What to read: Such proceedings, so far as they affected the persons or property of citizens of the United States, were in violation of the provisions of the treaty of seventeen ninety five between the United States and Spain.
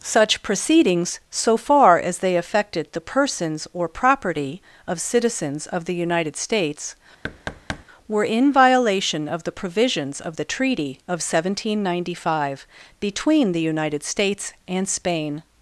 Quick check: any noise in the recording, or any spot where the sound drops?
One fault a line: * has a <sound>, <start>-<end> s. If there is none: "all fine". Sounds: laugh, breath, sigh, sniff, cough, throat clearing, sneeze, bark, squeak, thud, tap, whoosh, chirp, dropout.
* has a thud, 7.2-7.8 s